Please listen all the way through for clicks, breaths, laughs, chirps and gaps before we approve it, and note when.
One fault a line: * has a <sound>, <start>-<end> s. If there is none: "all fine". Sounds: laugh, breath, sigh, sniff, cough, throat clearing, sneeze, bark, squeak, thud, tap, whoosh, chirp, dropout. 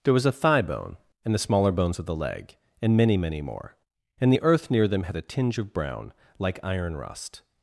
all fine